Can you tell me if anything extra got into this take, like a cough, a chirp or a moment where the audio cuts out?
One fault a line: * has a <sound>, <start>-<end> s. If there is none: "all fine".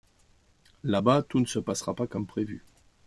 all fine